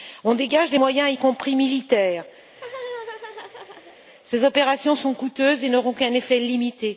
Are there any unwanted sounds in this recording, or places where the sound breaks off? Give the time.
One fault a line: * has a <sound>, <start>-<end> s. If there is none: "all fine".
* has a laugh, 2.4-4.0 s